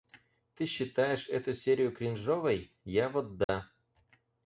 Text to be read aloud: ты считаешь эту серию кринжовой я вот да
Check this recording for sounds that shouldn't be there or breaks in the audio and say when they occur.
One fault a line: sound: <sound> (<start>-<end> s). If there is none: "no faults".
sound: dropout (3.4-3.5 s)